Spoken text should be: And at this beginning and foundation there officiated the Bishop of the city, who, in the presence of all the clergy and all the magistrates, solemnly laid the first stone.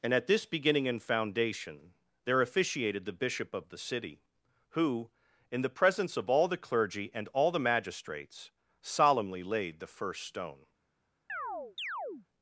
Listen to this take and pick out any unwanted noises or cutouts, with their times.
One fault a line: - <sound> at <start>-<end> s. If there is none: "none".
- chirp at 11.3-12.3 s